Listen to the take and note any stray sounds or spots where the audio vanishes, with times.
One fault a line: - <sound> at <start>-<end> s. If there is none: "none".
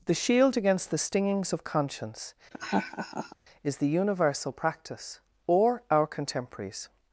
- laugh at 2.5-3.4 s